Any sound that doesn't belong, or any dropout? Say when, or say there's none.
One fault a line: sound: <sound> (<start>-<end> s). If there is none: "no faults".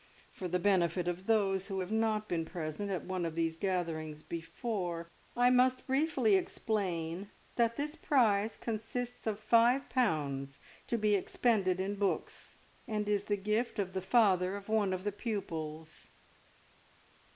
no faults